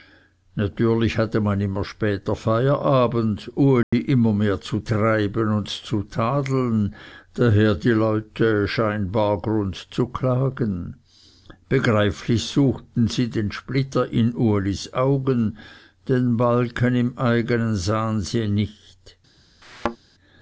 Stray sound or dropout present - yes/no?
yes